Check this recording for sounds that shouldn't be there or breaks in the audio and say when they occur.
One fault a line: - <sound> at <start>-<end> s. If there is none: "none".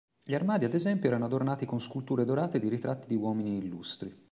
none